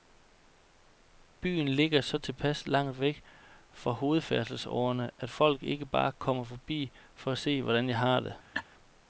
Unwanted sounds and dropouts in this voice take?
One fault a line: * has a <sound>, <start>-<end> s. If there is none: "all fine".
* has a laugh, 8.5-8.6 s